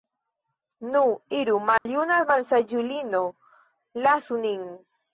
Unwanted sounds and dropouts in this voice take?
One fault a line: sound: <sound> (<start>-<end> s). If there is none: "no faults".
sound: dropout (1.8-1.9 s)